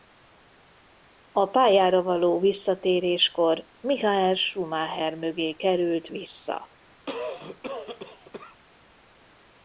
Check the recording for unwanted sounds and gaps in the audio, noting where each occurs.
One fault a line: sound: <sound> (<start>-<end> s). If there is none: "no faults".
sound: cough (7.1-8.6 s)